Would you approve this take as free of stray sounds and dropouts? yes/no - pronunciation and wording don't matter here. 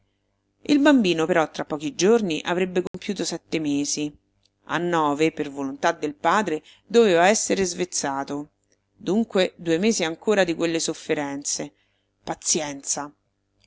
no